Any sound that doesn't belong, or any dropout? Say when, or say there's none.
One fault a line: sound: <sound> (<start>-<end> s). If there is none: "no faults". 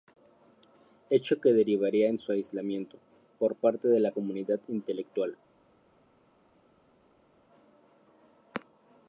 no faults